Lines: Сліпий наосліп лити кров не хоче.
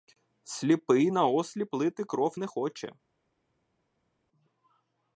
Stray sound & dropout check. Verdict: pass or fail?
pass